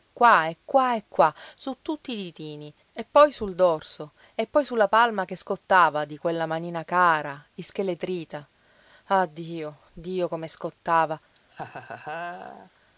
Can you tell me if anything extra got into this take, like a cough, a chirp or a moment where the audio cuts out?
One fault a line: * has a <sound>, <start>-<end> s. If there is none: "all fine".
* has a laugh, 11.4-12.7 s